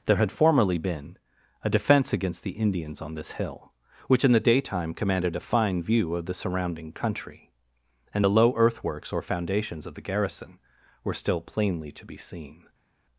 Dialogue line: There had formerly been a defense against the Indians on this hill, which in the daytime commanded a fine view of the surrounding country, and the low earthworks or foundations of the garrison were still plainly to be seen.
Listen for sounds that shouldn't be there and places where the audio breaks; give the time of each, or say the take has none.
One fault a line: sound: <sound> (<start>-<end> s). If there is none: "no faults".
no faults